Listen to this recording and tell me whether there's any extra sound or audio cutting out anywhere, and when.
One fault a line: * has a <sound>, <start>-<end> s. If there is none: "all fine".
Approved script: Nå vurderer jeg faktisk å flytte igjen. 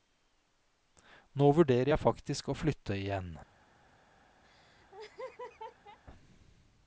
* has a laugh, 4.4-6.0 s